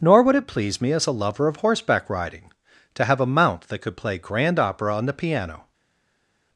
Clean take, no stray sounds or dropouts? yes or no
yes